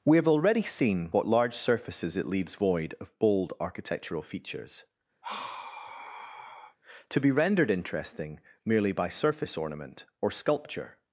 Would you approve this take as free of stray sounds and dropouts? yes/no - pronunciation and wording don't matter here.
no